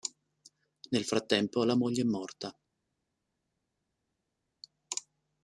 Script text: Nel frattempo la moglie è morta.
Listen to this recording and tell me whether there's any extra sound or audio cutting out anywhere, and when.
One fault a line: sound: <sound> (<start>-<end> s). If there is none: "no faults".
no faults